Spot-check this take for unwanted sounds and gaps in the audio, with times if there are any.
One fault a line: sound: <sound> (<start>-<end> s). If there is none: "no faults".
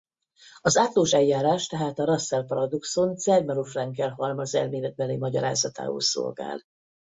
no faults